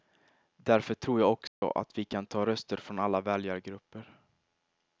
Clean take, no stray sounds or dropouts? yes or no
no